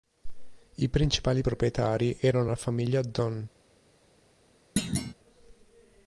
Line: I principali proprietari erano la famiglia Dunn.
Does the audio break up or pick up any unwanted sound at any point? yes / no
yes